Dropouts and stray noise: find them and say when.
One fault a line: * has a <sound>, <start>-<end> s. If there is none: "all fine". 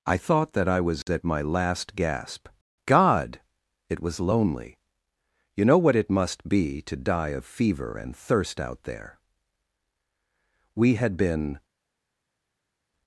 all fine